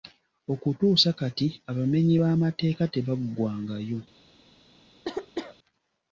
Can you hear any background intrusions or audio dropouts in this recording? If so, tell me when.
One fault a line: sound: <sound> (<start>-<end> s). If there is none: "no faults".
sound: cough (5.0-5.6 s)